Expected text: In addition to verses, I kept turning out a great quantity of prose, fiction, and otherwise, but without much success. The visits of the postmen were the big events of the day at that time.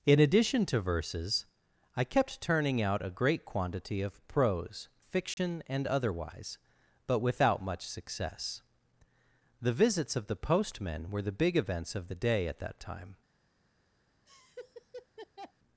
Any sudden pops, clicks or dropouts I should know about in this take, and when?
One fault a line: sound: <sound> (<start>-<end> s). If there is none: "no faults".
sound: dropout (5.3-5.4 s)
sound: laugh (14.3-15.5 s)